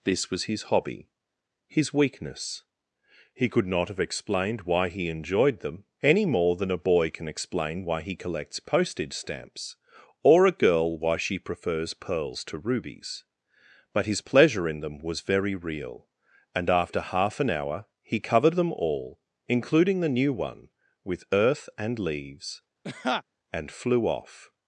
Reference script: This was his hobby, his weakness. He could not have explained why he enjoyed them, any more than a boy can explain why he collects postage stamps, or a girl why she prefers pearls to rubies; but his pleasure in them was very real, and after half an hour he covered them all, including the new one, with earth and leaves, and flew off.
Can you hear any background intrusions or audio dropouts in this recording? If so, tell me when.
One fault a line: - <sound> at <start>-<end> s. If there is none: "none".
- laugh at 22.8-23.2 s